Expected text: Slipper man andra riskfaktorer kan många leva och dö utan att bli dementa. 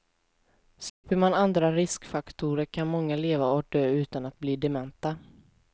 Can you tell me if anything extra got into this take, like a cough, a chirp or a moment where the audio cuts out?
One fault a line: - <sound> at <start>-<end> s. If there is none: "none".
- dropout at 0.9-1.0 s